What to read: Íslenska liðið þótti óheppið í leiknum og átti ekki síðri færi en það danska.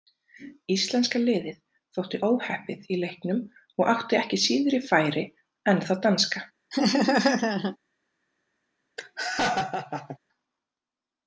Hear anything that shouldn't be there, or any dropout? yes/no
yes